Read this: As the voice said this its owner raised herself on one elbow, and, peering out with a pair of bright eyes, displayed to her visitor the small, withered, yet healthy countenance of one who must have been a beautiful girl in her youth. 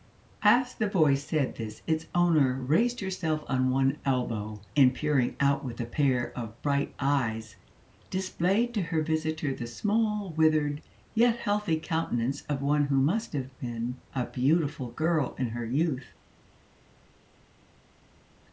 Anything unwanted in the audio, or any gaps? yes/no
no